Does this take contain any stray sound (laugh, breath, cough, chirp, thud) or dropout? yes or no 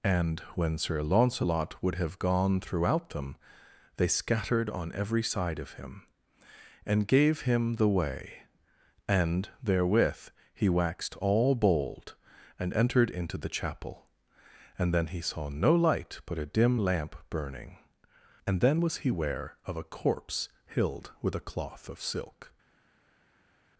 no